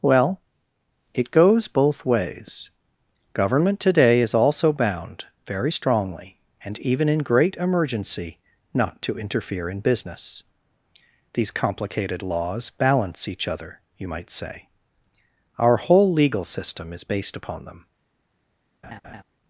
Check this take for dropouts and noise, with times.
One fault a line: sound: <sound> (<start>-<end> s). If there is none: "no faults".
sound: laugh (18.8-19.2 s)